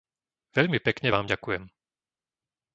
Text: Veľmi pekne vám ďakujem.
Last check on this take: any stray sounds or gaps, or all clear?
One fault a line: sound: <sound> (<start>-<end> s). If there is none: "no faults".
no faults